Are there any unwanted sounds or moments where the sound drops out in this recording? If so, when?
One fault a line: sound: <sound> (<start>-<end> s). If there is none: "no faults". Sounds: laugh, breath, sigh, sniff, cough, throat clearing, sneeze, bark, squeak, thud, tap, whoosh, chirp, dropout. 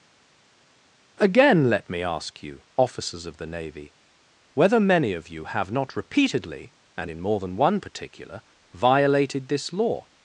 no faults